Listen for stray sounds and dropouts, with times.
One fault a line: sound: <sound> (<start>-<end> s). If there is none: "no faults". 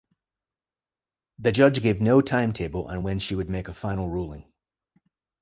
no faults